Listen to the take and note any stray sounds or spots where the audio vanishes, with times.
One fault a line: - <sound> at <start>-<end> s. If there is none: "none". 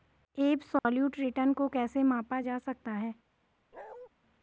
- dropout at 0.8-0.9 s
- bark at 3.7-4.1 s